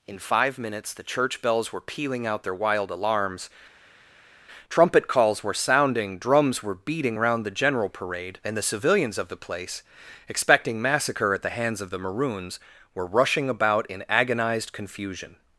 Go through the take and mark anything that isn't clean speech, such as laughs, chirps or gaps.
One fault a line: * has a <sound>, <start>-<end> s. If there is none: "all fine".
all fine